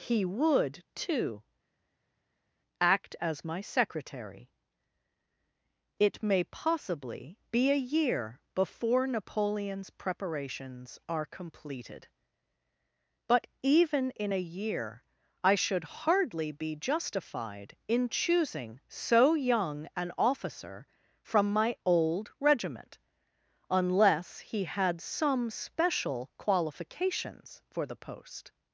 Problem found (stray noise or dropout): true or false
false